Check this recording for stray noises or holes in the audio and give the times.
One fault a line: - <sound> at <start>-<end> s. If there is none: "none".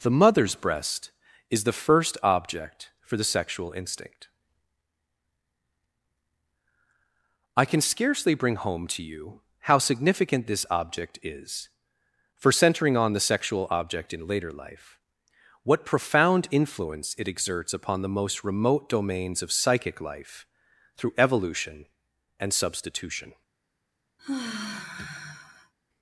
- sigh at 24.2-25.7 s